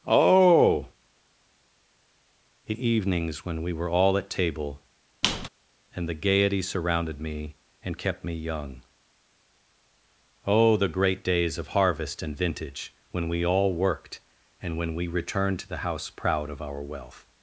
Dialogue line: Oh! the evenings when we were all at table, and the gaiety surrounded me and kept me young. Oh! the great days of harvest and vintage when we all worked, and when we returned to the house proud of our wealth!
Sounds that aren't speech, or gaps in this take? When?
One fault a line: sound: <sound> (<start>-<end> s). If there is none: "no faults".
sound: squeak (5.2-5.5 s)